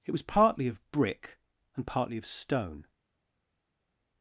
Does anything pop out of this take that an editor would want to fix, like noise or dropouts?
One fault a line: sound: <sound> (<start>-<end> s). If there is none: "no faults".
no faults